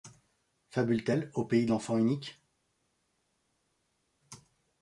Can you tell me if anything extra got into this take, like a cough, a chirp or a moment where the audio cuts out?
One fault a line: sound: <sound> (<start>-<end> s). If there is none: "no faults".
no faults